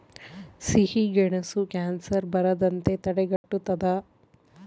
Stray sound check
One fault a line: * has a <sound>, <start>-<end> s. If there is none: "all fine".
* has a dropout, 3.4-3.4 s